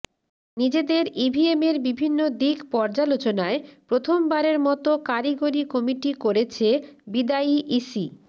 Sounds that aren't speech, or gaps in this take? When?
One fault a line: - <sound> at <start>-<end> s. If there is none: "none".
none